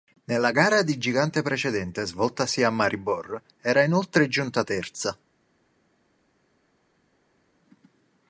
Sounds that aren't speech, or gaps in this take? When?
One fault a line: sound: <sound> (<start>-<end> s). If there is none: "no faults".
no faults